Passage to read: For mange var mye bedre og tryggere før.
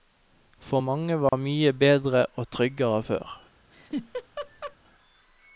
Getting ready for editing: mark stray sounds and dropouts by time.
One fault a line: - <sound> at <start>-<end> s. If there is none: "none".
- dropout at 1.3-1.3 s
- laugh at 3.7-4.8 s